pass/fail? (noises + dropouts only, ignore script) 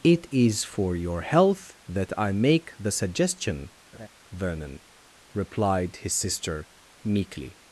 fail